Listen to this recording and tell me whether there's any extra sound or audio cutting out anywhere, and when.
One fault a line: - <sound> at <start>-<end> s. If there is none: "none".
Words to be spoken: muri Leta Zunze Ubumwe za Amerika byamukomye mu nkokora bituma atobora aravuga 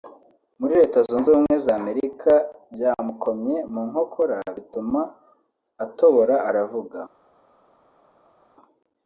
none